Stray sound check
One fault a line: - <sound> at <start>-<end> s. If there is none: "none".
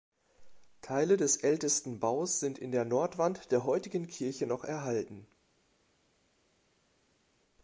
none